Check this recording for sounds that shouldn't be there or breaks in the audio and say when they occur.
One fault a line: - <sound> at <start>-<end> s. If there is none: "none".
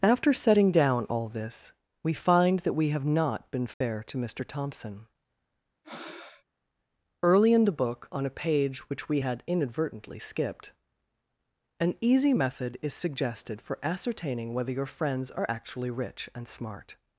- dropout at 3.7-3.8 s
- breath at 5.8-6.4 s